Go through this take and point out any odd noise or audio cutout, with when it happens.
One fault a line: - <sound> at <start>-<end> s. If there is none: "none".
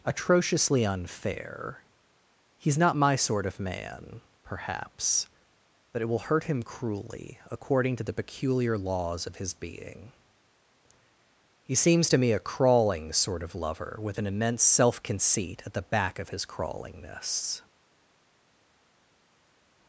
none